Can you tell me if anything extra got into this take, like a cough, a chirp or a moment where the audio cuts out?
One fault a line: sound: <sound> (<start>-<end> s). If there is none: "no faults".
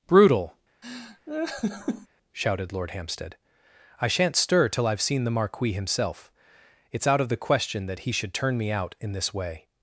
sound: laugh (0.8-2.1 s)